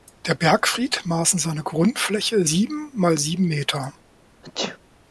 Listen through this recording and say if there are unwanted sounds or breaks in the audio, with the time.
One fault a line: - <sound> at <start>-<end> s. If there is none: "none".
- sneeze at 4.4-4.8 s